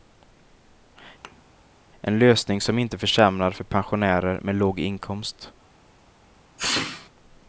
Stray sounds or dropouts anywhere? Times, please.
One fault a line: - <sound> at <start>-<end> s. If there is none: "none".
- thud at 1.2-1.4 s
- sneeze at 6.6-7.1 s